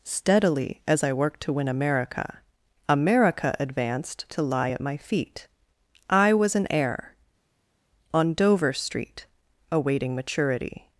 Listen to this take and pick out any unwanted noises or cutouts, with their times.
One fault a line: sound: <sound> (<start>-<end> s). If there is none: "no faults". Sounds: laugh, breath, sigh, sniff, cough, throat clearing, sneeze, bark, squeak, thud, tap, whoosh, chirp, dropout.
no faults